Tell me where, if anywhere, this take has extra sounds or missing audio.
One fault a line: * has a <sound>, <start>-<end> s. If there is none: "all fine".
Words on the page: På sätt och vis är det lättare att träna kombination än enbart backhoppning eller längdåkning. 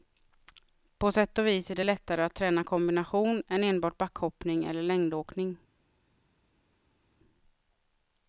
all fine